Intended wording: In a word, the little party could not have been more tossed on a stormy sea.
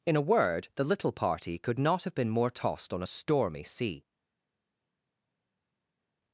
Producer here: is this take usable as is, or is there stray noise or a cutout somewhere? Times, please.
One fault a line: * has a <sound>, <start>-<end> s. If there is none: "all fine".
all fine